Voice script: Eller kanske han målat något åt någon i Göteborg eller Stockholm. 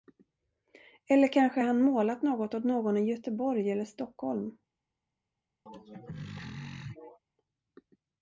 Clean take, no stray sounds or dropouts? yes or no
no